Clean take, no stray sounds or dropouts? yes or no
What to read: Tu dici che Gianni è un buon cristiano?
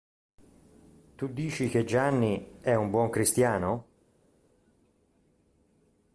yes